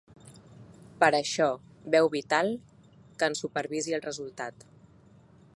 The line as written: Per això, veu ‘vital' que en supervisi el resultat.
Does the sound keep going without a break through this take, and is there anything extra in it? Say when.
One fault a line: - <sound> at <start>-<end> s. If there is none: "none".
none